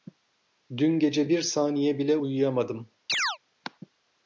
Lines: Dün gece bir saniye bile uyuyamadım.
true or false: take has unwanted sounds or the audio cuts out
true